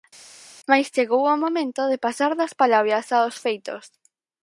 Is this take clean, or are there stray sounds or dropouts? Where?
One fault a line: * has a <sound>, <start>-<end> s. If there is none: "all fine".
all fine